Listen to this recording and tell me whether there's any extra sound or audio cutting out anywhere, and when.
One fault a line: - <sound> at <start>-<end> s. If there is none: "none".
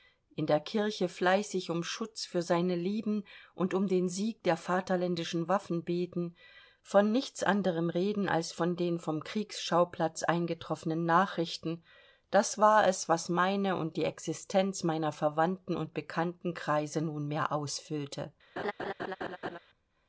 - laugh at 18.6-19.6 s